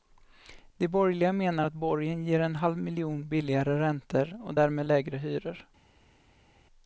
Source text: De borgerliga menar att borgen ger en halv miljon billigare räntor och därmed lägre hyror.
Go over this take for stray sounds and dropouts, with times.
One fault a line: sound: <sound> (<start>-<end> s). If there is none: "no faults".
no faults